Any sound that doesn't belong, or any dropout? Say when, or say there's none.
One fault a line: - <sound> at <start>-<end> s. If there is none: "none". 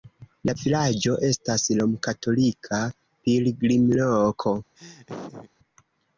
- laugh at 4.8-5.5 s